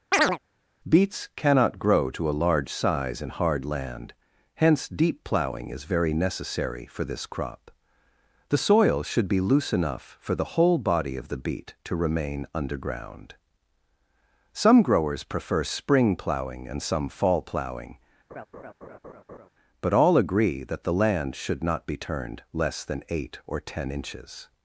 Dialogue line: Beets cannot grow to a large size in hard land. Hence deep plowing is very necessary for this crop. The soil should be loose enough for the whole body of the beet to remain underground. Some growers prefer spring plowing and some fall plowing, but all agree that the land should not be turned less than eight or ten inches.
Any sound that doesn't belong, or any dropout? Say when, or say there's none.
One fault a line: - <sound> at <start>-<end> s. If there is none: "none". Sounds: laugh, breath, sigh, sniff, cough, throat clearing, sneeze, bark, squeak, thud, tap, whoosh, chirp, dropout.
- chirp at 0.1-0.4 s
- laugh at 18.3-19.5 s